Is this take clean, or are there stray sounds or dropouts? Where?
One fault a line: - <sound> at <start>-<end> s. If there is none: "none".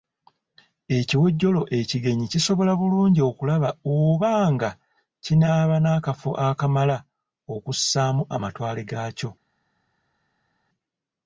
none